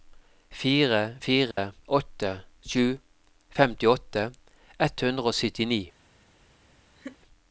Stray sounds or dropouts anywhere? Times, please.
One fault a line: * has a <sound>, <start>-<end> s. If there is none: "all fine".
* has a dropout, 1.5-1.6 s
* has a laugh, 7.0-7.2 s